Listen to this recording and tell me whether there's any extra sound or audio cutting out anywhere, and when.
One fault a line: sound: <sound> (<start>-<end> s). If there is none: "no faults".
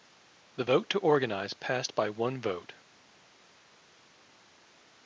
no faults